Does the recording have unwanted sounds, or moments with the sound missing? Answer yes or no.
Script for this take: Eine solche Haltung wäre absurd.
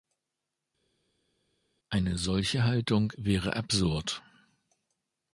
no